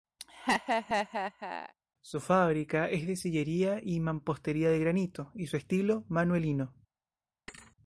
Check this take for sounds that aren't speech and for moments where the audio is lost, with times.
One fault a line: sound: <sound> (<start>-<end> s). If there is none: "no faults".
sound: laugh (0.2-1.7 s)
sound: thud (7.5-7.8 s)